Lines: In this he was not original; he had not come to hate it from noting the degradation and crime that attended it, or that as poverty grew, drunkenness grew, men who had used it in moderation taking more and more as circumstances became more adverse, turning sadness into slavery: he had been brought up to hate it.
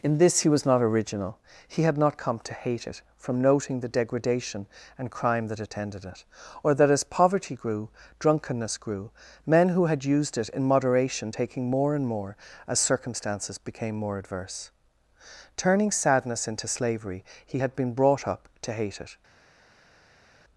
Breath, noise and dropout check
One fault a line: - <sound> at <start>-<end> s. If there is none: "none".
none